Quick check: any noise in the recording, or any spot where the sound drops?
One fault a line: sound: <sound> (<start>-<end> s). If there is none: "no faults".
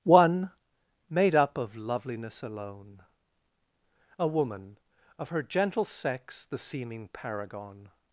no faults